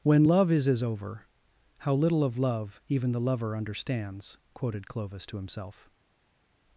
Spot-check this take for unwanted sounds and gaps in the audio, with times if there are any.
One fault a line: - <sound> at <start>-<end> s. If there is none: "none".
none